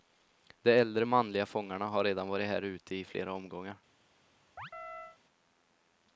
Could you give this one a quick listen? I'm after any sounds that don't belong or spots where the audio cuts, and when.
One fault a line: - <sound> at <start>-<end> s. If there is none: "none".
- chirp at 4.6-5.2 s